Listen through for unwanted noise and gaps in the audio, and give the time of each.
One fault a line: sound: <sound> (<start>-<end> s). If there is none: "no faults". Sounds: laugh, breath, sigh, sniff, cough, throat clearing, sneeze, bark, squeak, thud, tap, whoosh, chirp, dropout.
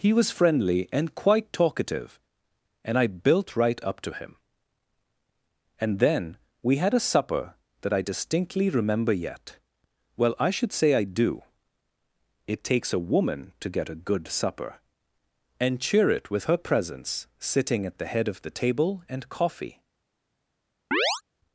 sound: chirp (20.9-21.2 s)